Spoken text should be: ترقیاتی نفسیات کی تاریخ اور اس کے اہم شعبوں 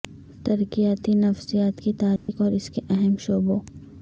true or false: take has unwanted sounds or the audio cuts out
true